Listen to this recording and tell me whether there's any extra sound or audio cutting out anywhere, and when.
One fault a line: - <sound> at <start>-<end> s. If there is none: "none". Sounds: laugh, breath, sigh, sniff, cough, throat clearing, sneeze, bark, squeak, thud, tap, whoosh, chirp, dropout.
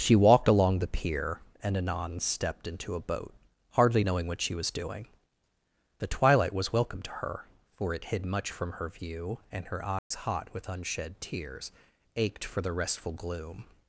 - dropout at 10.0-10.1 s